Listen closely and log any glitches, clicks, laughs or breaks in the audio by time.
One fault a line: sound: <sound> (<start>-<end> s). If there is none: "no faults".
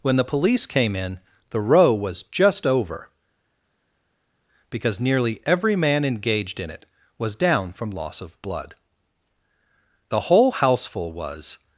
no faults